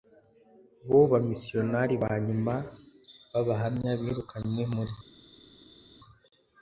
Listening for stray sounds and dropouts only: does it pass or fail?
pass